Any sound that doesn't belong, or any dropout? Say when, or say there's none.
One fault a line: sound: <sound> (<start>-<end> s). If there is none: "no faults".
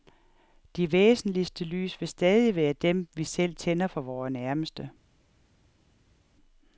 no faults